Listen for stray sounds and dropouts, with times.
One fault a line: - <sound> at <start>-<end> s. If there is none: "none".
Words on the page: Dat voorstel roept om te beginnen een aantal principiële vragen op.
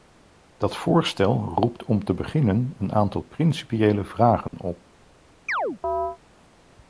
- dropout at 4.5-4.5 s
- chirp at 5.5-6.2 s